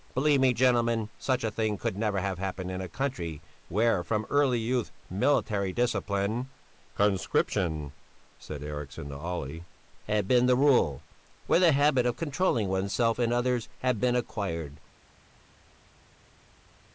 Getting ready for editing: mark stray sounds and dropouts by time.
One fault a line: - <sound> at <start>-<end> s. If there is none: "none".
none